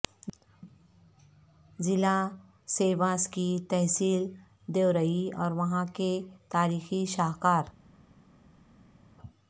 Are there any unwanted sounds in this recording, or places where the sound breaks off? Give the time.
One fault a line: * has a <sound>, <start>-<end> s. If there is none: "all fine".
all fine